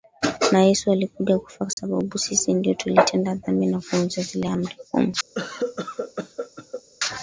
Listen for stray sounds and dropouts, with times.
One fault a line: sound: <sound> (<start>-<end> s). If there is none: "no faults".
sound: dropout (1.7-1.8 s)
sound: cough (5.3-6.8 s)